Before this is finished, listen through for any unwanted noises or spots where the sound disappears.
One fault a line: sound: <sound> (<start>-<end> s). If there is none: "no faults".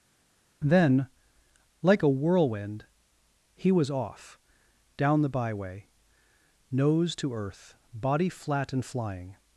no faults